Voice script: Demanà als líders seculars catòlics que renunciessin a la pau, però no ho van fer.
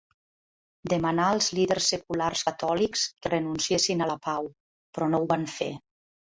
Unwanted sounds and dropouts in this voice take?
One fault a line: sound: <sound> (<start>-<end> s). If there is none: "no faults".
no faults